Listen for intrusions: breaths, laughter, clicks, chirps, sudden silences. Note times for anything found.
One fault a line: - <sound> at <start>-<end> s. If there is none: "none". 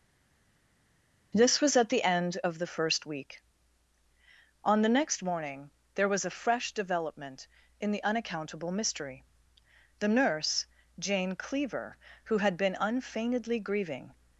none